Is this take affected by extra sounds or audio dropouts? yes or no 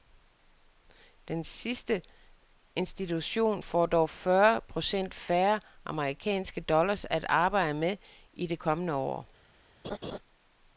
yes